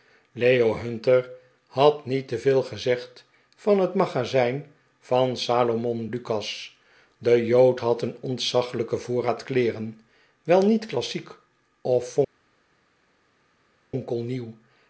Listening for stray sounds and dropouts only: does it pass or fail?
pass